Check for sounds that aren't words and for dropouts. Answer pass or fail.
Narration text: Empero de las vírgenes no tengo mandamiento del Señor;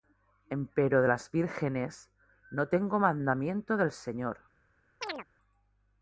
fail